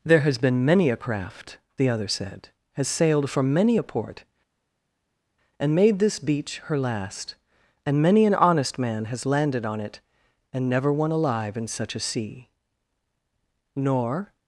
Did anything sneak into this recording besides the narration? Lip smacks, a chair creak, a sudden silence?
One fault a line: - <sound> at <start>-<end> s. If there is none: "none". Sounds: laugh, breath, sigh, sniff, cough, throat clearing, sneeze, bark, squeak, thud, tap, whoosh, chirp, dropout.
none